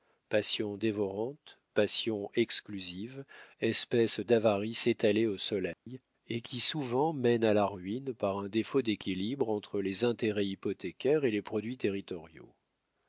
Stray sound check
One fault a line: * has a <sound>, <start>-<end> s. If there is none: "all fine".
* has a dropout, 5.7-5.9 s